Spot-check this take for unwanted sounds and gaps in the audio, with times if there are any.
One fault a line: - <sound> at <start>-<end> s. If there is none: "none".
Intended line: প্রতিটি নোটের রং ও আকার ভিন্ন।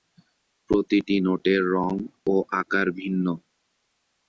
none